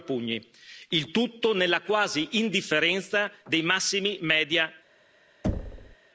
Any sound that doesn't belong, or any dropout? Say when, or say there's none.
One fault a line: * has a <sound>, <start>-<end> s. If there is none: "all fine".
* has a thud, 5.4-6.0 s